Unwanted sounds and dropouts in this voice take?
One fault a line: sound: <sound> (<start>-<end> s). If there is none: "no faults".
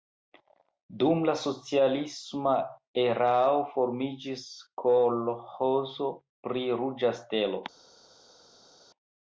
no faults